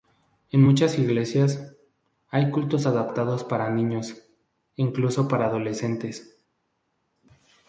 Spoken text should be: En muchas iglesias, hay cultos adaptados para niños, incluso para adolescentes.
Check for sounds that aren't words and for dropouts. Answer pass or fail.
pass